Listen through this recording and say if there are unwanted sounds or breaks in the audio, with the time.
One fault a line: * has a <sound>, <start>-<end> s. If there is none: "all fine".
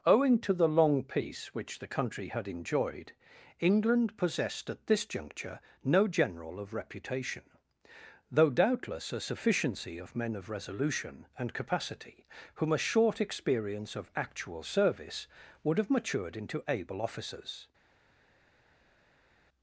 all fine